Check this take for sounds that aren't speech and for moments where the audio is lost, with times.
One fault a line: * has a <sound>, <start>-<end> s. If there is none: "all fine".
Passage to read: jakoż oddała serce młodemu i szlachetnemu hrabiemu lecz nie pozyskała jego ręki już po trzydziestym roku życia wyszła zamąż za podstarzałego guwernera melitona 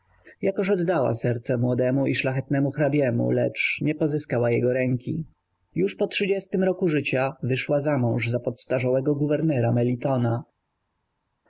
all fine